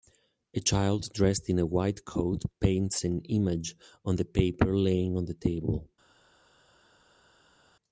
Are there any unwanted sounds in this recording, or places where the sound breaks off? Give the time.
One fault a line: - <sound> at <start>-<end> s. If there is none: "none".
none